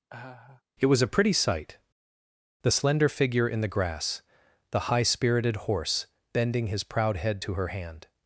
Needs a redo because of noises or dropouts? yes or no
yes